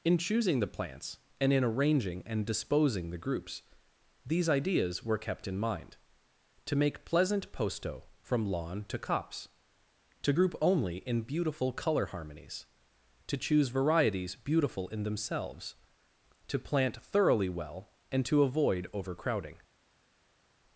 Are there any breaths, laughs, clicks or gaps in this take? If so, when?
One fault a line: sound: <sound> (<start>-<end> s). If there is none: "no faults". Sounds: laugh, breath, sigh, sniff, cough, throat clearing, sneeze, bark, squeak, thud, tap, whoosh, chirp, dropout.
no faults